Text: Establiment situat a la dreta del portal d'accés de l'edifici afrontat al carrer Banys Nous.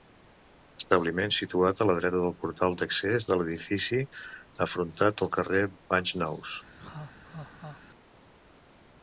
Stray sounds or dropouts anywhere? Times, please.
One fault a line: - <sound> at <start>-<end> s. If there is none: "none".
- laugh at 6.8-7.8 s